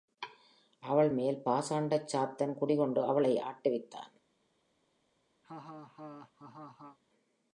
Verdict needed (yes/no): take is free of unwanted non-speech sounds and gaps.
no